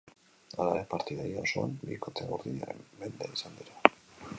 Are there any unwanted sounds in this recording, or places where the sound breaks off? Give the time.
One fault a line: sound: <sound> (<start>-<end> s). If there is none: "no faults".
no faults